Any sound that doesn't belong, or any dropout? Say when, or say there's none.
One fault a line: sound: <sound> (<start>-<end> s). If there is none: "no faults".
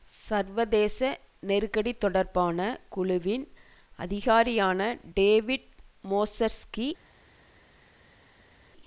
no faults